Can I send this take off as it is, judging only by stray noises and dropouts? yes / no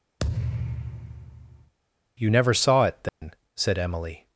no